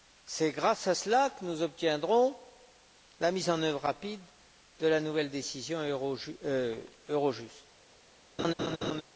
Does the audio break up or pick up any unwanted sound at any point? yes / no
yes